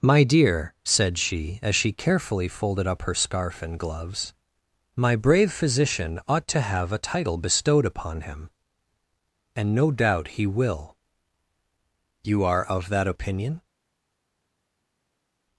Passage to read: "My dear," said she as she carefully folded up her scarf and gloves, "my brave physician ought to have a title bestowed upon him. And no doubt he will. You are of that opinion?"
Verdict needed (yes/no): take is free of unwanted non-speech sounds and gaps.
yes